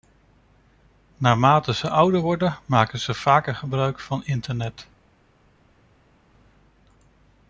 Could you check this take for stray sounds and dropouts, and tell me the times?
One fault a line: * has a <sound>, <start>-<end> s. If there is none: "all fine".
all fine